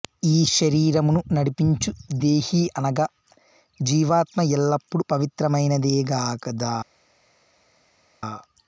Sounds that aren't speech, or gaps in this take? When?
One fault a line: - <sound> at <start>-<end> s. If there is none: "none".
none